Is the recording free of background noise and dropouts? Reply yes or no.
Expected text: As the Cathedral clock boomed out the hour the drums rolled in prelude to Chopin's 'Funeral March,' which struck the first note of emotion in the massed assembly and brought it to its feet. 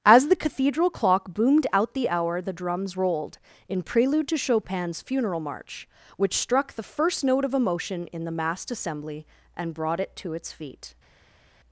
yes